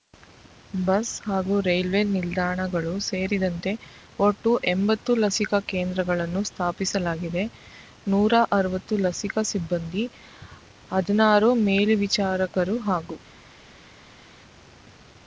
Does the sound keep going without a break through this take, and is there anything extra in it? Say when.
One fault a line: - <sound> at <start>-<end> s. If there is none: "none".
none